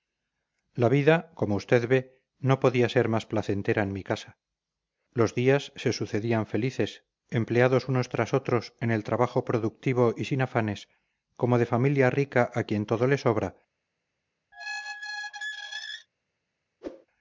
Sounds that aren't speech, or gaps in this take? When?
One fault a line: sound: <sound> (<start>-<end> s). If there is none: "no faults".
sound: squeak (14.5-16.1 s)
sound: whoosh (16.8-17.1 s)